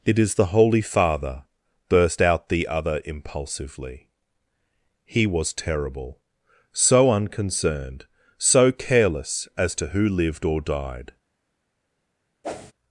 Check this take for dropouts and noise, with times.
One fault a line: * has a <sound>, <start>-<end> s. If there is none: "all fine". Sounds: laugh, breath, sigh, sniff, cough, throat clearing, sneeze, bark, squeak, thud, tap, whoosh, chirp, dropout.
* has a whoosh, 12.4-12.7 s